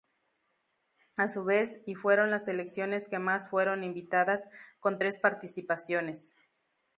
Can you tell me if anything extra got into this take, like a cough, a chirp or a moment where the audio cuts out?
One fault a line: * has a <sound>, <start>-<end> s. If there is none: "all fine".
all fine